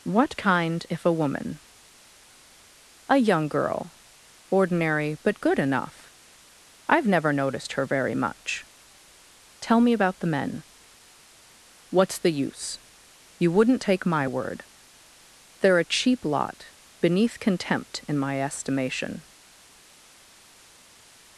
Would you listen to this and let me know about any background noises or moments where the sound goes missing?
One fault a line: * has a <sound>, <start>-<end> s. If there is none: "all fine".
all fine